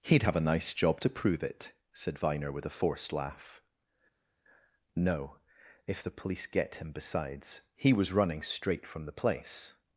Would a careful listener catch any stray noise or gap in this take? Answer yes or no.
no